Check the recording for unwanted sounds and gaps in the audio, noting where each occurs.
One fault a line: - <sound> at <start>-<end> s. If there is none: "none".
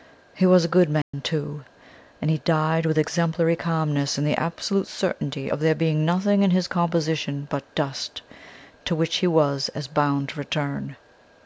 - dropout at 1.0-1.1 s